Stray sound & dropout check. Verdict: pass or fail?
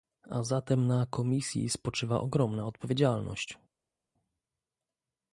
pass